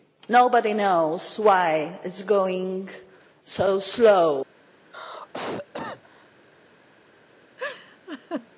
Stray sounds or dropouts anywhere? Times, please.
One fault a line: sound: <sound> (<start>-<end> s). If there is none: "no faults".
sound: cough (4.8-6.3 s)
sound: laugh (7.6-8.5 s)